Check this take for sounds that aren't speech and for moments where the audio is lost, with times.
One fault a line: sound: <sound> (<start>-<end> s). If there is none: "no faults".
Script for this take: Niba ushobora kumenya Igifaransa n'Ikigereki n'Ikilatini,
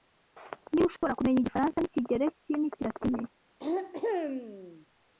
sound: dropout (1.0-1.0 s)
sound: throat clearing (3.6-4.9 s)